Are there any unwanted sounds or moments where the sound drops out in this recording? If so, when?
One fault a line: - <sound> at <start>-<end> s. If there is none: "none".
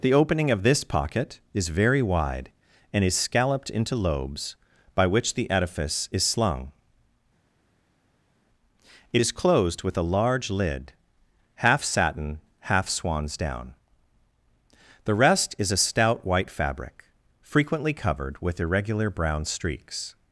none